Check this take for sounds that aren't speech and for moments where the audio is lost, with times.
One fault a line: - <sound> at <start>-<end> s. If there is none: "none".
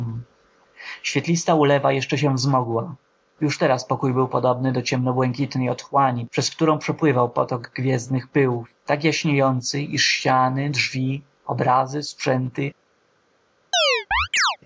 - chirp at 13.7-14.6 s